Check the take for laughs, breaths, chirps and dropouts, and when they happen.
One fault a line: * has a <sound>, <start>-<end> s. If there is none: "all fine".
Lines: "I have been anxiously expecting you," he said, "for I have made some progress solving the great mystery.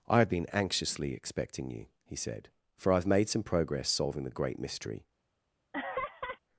* has a laugh, 5.7-6.4 s